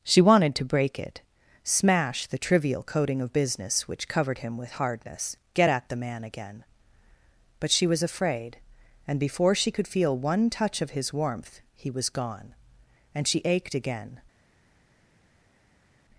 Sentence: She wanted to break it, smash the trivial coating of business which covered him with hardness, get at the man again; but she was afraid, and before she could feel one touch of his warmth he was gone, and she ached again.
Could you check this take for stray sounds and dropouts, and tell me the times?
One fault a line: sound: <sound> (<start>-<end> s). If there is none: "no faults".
no faults